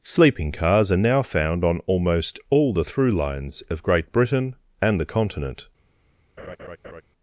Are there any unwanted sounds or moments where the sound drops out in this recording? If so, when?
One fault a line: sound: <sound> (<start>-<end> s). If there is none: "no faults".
sound: laugh (6.4-7.0 s)